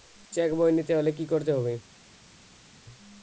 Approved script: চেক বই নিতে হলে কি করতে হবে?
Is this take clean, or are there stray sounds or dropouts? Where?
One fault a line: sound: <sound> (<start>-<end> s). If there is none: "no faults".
no faults